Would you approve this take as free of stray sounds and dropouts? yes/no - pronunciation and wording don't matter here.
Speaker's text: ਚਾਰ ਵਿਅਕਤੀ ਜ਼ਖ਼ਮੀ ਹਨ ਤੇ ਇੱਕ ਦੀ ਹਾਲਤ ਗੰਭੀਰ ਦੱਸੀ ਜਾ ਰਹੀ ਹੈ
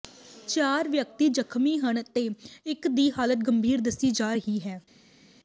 yes